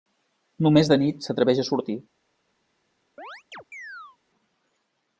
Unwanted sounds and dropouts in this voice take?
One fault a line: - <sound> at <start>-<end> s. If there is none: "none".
- chirp at 3.2-4.2 s